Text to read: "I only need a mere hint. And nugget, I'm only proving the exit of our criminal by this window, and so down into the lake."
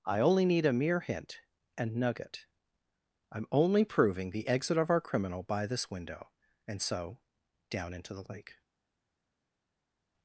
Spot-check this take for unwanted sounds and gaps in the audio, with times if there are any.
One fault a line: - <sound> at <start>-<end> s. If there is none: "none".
none